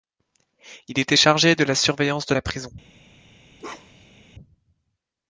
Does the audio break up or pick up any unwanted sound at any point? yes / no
yes